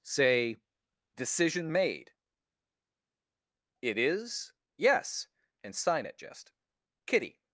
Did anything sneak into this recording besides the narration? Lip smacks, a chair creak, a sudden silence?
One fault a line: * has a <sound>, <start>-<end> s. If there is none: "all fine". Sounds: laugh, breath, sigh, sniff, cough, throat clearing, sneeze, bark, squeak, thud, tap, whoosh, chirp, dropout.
all fine